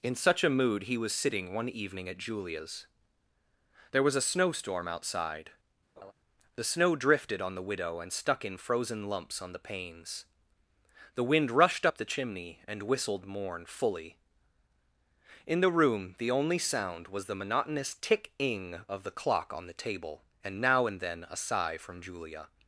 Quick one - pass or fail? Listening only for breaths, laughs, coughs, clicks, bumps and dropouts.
fail